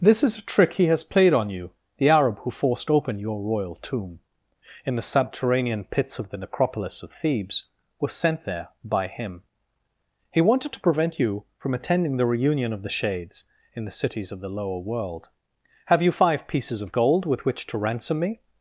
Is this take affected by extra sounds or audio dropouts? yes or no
no